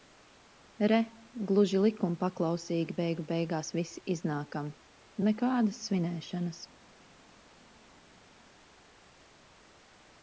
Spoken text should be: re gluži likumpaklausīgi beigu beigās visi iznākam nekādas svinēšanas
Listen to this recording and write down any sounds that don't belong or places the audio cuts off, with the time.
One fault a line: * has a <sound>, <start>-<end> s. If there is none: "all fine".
all fine